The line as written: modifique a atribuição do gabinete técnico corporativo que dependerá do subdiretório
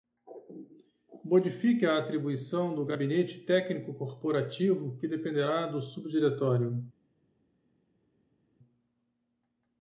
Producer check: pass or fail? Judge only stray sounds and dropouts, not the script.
pass